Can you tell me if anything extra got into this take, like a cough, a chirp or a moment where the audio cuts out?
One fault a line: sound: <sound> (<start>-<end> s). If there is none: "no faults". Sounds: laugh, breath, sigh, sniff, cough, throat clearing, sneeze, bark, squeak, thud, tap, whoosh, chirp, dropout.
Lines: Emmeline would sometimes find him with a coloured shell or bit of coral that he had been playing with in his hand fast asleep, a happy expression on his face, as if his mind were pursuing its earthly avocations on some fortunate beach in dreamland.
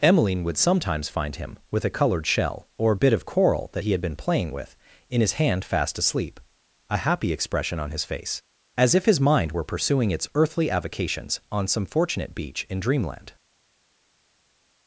no faults